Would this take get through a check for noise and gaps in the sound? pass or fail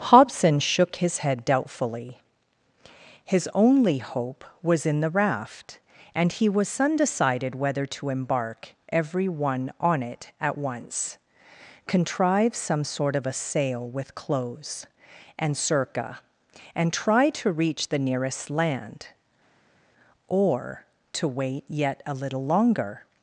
pass